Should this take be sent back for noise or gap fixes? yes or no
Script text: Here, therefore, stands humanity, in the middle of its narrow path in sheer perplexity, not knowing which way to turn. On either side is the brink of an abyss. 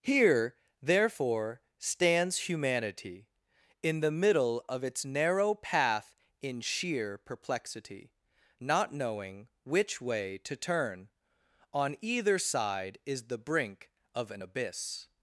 no